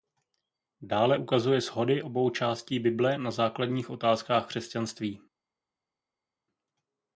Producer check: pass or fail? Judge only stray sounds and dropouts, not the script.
pass